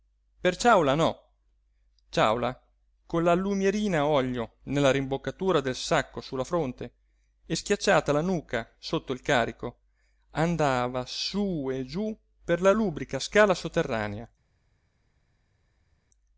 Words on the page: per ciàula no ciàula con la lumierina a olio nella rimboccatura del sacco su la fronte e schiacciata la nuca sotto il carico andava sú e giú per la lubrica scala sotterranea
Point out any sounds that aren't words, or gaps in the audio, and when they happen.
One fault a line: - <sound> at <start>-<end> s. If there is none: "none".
none